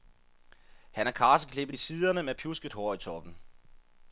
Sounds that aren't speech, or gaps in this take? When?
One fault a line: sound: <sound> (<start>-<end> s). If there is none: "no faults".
no faults